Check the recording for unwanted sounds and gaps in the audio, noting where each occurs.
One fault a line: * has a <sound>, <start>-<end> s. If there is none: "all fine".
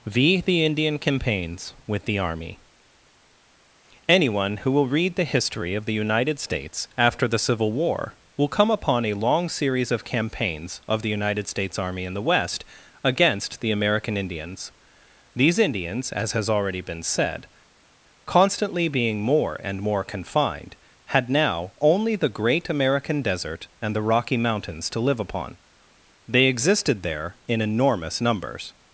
all fine